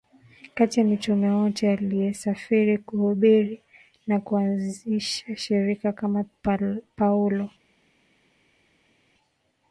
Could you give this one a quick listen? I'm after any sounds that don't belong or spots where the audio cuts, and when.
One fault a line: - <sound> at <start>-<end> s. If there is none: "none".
none